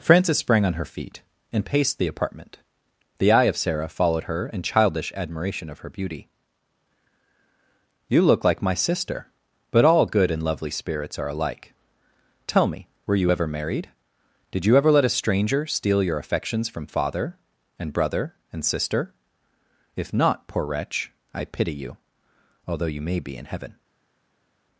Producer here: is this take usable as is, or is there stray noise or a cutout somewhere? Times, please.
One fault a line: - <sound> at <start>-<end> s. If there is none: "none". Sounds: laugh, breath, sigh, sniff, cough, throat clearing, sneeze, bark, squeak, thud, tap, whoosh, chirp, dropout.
none